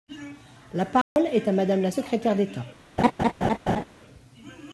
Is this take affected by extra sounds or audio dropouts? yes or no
yes